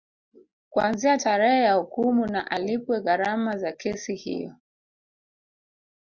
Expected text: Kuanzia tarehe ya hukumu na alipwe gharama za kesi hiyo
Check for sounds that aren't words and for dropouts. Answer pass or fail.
pass